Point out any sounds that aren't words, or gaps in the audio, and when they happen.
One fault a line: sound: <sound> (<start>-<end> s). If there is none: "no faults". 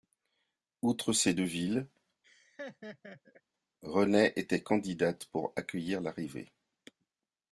sound: laugh (2.2-3.4 s)